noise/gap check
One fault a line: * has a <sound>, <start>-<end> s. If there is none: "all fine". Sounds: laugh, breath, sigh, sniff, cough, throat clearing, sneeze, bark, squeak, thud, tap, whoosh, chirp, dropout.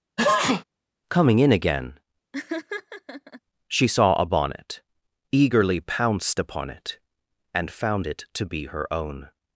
* has a sneeze, 0.2-0.6 s
* has a laugh, 2.3-3.4 s